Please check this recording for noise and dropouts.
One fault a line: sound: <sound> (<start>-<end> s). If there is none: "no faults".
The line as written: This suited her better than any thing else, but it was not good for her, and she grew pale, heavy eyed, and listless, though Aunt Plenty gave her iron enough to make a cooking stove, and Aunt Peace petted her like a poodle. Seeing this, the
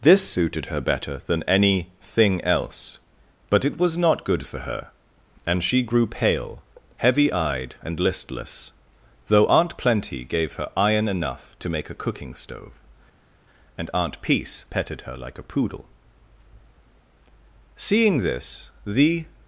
no faults